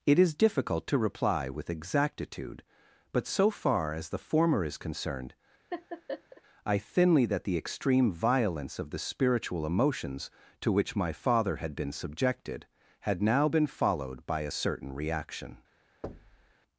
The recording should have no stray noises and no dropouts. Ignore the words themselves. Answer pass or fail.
fail